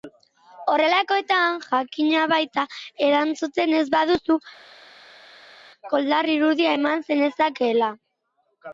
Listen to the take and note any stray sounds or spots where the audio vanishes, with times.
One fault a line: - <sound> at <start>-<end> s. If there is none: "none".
none